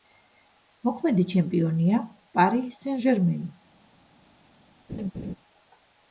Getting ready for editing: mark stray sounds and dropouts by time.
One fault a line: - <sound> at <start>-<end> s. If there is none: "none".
- laugh at 4.9-5.4 s